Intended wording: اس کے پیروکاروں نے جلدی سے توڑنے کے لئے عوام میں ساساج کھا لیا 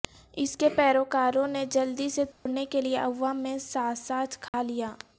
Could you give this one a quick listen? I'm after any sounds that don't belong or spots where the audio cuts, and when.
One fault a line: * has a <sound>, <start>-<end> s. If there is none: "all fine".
* has a dropout, 2.3-2.5 s
* has a dropout, 4.5-4.5 s